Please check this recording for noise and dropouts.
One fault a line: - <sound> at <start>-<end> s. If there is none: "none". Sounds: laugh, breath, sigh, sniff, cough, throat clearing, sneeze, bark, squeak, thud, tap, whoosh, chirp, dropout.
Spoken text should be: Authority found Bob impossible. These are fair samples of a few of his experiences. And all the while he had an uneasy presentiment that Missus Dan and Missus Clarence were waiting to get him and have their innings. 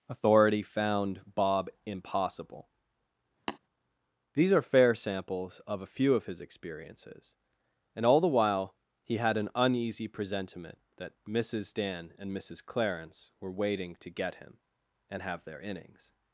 - tap at 3.5-3.6 s